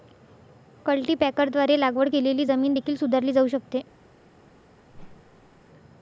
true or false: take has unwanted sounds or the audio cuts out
true